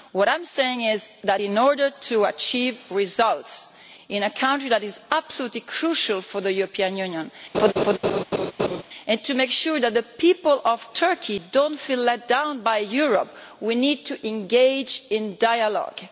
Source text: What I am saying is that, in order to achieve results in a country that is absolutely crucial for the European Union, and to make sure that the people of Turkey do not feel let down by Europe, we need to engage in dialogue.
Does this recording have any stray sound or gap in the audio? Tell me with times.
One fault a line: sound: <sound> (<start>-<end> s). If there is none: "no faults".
sound: laugh (7.5-8.8 s)